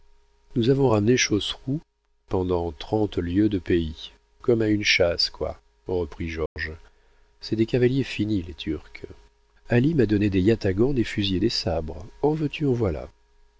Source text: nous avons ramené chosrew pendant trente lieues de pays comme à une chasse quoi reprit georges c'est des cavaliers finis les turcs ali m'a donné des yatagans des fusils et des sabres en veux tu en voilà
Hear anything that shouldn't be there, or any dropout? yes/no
yes